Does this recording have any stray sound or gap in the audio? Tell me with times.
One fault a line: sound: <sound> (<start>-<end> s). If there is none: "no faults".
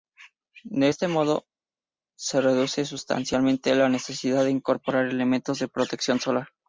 no faults